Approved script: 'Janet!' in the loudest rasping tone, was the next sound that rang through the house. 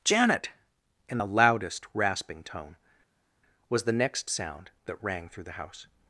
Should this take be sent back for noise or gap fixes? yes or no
no